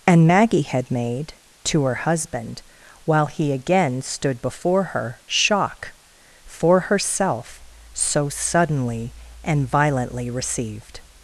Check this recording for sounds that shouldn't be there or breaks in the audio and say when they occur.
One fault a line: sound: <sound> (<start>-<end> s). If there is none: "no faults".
no faults